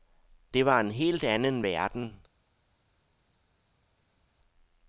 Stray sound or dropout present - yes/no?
no